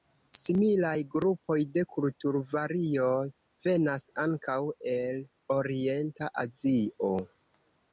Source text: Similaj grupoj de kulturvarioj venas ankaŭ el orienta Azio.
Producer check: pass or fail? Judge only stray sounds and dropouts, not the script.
pass